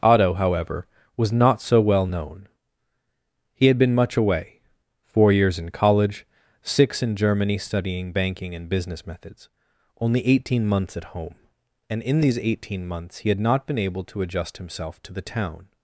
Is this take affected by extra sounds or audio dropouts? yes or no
no